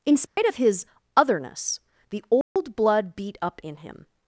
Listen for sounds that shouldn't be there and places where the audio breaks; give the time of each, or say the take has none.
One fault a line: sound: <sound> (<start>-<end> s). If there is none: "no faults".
sound: dropout (0.3-0.4 s)
sound: dropout (2.4-2.6 s)